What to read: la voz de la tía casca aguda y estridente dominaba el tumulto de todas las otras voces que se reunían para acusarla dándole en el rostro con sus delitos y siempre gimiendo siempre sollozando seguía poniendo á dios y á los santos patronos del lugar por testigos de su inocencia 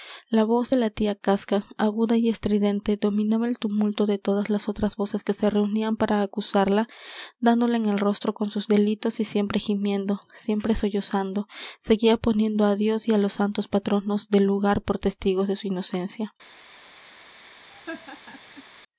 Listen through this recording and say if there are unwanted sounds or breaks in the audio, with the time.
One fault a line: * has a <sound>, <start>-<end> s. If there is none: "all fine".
* has a laugh, 17.7-18.6 s